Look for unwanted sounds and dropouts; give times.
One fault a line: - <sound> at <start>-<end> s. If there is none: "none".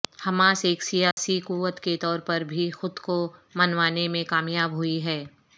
- dropout at 1.1-1.2 s